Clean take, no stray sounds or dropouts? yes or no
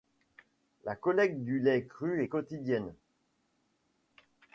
yes